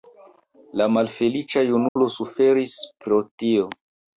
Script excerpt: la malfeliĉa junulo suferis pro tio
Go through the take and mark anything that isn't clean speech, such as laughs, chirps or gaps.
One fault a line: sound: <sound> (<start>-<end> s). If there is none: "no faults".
sound: dropout (1.9-2.0 s)